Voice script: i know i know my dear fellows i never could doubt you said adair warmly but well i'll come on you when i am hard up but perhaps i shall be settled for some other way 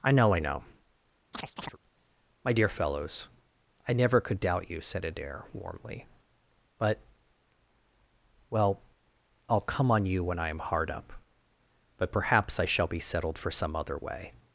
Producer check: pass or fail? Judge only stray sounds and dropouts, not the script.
fail